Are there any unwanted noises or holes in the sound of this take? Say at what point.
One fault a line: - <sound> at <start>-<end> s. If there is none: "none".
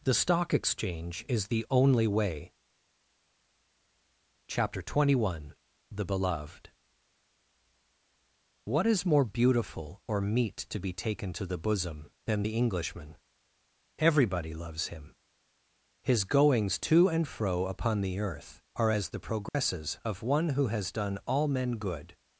- dropout at 19.5-19.5 s